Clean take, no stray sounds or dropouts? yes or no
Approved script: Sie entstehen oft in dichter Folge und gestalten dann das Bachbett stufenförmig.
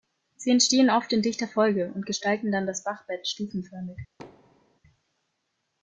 no